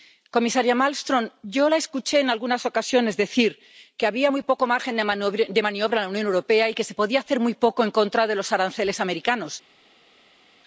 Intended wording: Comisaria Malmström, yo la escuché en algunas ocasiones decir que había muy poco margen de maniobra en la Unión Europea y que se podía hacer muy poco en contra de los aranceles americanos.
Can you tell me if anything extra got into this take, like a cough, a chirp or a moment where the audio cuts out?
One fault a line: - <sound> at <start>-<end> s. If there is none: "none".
none